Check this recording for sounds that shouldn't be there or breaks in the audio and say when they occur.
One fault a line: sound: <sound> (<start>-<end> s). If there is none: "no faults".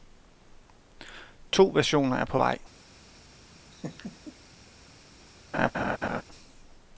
sound: laugh (3.7-4.4 s)
sound: laugh (5.5-6.2 s)